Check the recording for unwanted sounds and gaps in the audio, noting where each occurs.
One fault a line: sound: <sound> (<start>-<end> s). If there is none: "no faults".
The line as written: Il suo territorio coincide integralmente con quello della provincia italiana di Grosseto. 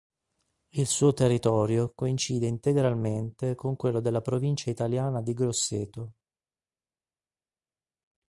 no faults